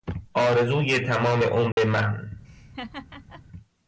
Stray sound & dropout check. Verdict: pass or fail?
fail